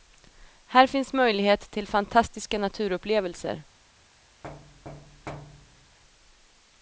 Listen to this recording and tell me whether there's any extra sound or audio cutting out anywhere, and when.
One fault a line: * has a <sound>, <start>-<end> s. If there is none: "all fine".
* has a thud, 4.4-6.0 s